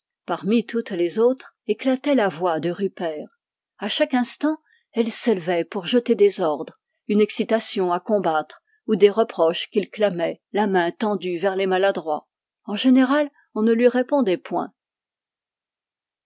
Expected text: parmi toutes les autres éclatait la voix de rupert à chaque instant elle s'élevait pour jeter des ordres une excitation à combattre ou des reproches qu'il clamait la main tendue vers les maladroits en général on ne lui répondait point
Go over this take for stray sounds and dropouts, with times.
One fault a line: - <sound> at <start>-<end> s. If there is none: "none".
none